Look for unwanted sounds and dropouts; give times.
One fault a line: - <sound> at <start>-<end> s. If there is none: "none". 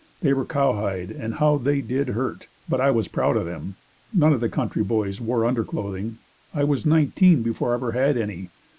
none